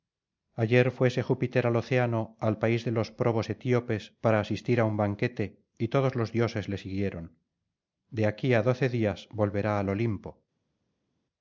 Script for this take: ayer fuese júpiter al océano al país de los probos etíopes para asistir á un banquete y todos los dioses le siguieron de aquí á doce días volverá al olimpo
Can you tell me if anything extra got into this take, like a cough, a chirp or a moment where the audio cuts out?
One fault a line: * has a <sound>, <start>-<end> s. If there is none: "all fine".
all fine